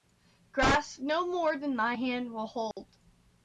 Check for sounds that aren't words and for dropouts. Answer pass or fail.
fail